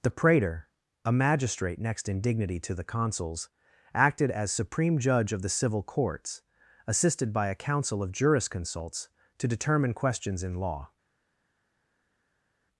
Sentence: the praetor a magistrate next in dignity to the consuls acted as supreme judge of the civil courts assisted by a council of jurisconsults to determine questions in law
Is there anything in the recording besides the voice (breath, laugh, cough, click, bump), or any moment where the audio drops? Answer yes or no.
no